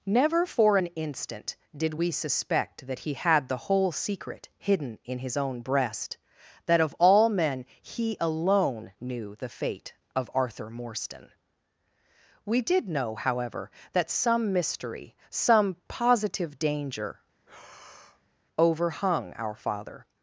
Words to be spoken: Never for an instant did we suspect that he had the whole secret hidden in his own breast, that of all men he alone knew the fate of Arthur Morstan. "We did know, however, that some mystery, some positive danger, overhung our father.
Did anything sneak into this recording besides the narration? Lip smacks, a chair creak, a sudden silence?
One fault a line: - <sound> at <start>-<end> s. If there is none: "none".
- breath at 17.3-18.4 s